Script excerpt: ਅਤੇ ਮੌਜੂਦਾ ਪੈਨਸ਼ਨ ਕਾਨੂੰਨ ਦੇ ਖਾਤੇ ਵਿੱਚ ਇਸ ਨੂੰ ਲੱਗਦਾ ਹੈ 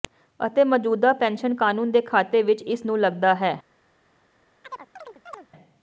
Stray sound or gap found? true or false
true